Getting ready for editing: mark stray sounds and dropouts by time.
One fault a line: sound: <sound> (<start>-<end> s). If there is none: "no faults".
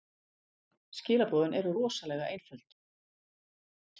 no faults